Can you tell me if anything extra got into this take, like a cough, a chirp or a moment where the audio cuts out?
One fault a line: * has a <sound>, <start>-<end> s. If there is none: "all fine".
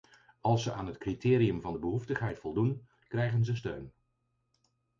all fine